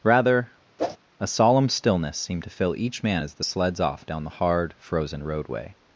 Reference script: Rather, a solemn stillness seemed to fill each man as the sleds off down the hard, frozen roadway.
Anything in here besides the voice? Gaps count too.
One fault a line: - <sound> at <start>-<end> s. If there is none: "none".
- whoosh at 0.8-1.0 s